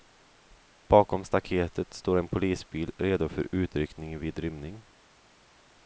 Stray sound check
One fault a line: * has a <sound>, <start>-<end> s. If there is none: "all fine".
all fine